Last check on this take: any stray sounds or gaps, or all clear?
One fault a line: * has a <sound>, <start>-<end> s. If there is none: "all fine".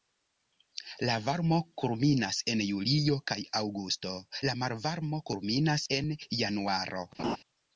* has a laugh, 7.2-7.4 s